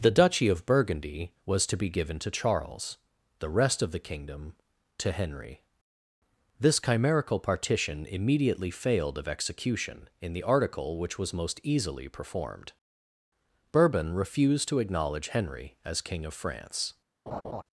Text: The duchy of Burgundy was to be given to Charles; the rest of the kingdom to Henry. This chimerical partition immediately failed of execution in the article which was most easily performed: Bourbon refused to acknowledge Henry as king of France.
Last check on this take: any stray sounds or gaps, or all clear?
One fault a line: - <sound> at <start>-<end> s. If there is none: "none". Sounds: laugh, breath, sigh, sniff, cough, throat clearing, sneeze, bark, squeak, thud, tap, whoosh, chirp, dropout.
- laugh at 17.3-17.6 s